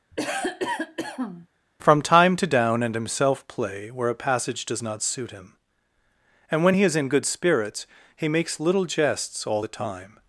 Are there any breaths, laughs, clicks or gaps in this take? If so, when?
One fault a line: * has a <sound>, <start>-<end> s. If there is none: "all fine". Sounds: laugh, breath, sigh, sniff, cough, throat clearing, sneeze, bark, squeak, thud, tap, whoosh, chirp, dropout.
* has a cough, 0.1-1.5 s